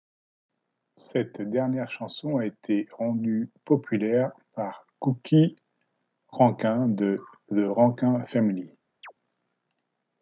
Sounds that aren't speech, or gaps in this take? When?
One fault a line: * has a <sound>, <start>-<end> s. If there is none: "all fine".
* has a chirp, 9.0-9.1 s